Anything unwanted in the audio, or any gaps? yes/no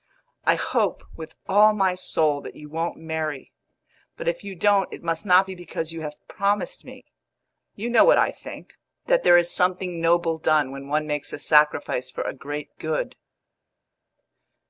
no